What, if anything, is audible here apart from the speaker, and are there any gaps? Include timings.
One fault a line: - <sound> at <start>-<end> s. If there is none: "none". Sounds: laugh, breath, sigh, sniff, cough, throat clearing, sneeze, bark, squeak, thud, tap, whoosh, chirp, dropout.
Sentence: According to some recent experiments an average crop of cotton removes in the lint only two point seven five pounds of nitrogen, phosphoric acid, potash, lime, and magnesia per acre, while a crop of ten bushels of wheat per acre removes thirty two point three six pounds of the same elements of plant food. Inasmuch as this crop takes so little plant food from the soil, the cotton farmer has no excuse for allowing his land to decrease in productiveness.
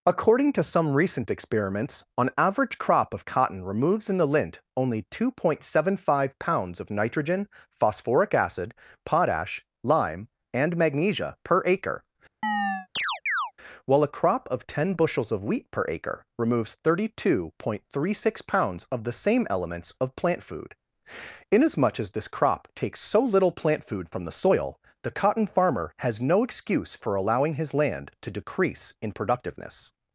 - chirp at 12.4-13.5 s